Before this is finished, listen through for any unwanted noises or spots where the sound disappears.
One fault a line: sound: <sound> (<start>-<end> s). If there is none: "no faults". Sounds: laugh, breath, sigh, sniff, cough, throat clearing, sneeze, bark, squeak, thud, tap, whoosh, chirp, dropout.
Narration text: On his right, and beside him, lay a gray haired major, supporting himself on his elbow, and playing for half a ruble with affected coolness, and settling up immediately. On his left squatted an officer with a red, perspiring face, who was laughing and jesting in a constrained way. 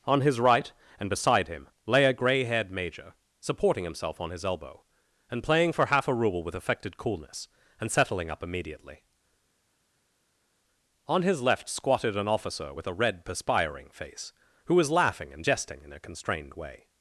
no faults